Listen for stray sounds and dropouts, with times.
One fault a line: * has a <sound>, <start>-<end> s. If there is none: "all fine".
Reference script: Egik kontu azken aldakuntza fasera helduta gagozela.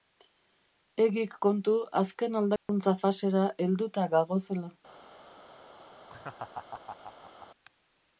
* has a dropout, 2.6-2.7 s
* has a laugh, 6.1-7.5 s